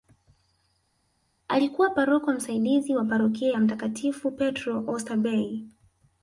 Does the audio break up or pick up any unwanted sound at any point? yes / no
no